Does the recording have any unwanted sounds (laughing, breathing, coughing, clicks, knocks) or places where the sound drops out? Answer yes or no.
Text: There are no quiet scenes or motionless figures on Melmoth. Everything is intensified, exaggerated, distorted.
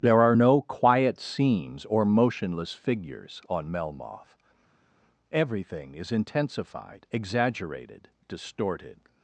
no